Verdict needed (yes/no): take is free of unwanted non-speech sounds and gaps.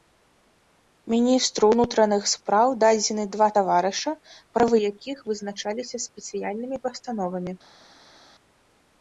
yes